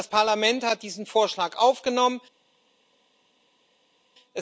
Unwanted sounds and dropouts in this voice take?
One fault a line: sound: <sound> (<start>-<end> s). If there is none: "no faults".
no faults